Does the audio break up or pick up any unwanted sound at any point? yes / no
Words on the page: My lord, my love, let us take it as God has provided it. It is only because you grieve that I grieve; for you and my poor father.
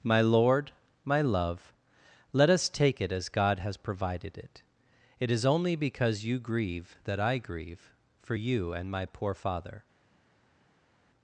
no